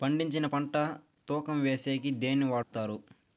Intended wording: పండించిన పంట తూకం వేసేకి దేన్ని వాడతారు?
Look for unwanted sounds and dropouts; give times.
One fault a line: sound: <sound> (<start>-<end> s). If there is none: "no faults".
sound: dropout (2.6-2.7 s)